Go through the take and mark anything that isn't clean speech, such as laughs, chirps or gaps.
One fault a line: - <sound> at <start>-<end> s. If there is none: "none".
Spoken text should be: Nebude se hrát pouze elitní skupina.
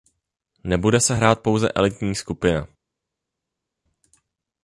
none